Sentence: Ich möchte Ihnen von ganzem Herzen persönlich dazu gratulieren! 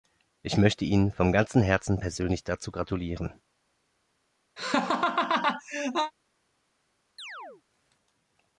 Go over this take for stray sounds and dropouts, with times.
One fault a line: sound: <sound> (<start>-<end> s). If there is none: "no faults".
sound: laugh (4.6-6.1 s)
sound: chirp (7.2-7.6 s)